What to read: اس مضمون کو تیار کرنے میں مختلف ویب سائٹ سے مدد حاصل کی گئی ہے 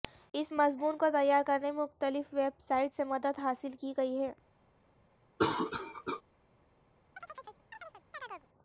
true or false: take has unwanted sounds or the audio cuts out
true